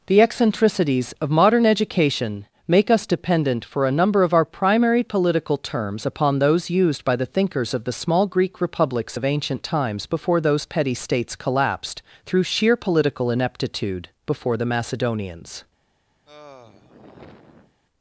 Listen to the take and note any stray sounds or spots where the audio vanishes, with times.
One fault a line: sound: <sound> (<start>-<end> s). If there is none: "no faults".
sound: sigh (16.2-17.8 s)